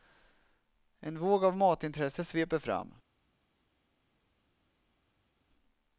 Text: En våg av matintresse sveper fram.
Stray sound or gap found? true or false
false